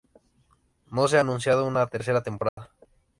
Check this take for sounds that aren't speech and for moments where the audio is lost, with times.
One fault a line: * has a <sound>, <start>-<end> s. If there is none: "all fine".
* has a dropout, 2.5-2.6 s